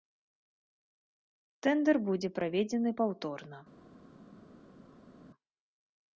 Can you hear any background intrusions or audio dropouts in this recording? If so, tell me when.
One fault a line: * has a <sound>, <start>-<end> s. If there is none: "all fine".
all fine